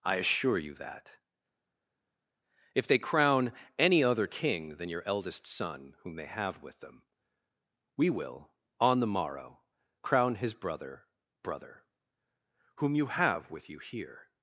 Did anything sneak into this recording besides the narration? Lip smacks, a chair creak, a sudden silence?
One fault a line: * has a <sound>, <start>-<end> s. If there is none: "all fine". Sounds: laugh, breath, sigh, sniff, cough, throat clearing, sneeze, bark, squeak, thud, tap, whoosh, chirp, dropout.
all fine